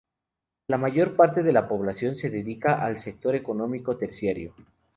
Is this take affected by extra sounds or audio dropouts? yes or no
no